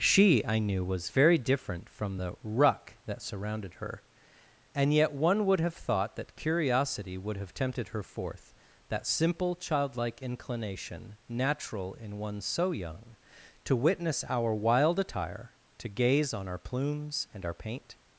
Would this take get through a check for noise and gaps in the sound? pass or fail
pass